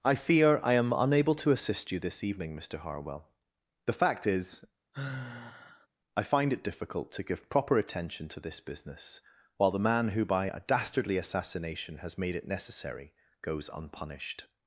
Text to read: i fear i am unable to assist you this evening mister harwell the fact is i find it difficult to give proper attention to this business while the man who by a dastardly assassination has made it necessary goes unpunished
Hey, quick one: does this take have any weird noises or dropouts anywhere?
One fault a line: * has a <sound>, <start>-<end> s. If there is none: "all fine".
* has a sigh, 4.9-5.9 s